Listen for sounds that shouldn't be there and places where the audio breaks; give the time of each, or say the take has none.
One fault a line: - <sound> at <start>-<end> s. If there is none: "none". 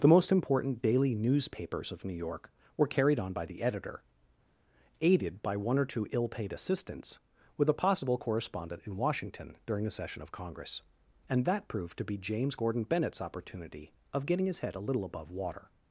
none